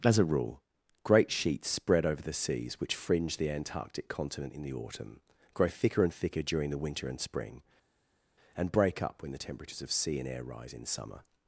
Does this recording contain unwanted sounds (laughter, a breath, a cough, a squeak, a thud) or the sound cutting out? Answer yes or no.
no